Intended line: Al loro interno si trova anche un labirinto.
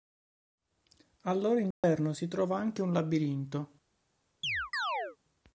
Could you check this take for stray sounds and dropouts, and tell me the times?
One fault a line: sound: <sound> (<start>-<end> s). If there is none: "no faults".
sound: dropout (1.7-1.8 s)
sound: chirp (4.4-5.2 s)